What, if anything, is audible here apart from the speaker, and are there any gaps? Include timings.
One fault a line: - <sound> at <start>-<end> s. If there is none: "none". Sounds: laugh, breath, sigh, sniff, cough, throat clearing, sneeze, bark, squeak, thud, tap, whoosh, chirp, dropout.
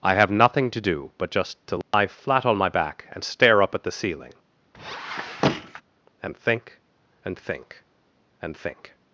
- dropout at 1.8-1.9 s
- squeak at 4.7-5.8 s